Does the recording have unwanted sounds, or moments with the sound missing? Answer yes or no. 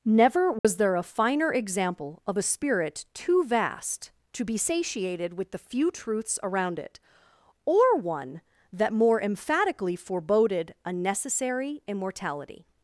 yes